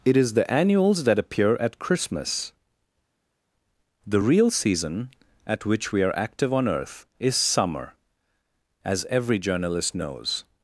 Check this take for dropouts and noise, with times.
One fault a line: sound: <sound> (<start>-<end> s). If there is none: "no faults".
no faults